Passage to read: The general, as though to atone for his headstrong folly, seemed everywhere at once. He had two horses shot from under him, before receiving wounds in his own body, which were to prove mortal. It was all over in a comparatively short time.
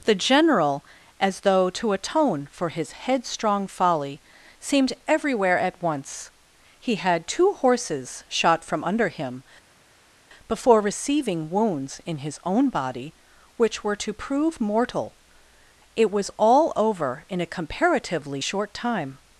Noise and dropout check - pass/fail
pass